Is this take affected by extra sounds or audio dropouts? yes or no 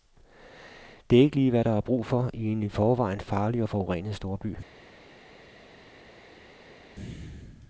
no